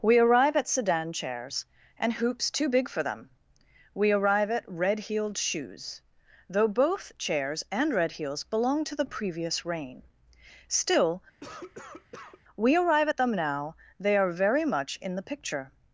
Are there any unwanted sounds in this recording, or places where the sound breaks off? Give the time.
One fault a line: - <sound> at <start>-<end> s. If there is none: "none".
- cough at 11.4-12.4 s